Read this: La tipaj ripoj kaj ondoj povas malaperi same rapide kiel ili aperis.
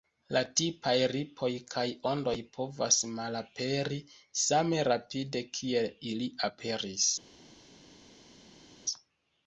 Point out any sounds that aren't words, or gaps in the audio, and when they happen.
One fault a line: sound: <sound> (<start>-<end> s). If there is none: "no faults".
no faults